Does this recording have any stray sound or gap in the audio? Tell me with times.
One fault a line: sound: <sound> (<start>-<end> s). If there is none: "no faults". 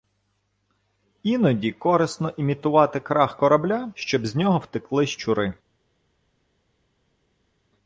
no faults